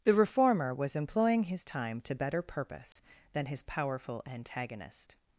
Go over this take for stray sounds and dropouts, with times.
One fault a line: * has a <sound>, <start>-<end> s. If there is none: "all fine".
* has a dropout, 2.9-3.0 s